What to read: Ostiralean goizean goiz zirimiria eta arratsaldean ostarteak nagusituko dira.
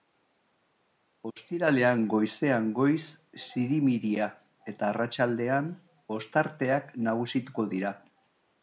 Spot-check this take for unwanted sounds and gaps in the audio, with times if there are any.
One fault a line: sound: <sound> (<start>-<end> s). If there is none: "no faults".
no faults